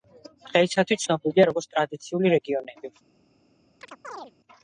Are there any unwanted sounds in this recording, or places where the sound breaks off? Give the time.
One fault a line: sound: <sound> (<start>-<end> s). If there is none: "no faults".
sound: chirp (3.8-4.3 s)